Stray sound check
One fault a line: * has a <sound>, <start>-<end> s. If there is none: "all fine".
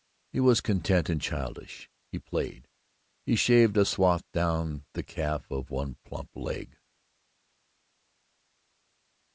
all fine